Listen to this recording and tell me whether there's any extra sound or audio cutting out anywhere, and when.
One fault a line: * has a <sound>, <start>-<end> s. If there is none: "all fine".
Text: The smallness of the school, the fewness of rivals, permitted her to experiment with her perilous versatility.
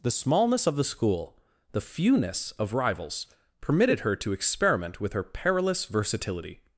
all fine